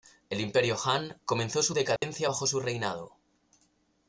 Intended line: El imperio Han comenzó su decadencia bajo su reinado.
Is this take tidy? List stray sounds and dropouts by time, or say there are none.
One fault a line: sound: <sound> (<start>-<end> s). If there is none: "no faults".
sound: dropout (2.0-2.0 s)